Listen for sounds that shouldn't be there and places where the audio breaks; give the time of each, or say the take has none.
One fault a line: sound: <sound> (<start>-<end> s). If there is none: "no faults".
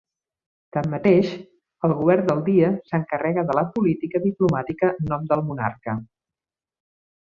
no faults